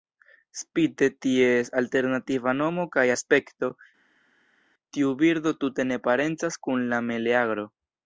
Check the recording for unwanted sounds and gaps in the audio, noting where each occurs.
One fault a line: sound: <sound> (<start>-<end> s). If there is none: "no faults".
no faults